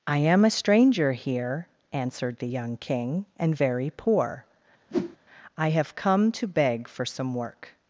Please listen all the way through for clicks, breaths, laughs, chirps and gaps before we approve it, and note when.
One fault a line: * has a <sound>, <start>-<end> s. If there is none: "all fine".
* has a whoosh, 4.9-5.2 s